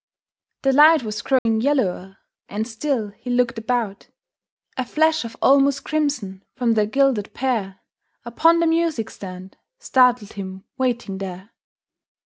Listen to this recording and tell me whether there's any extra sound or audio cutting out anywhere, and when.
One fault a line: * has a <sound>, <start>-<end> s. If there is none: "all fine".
* has a dropout, 1.4-1.5 s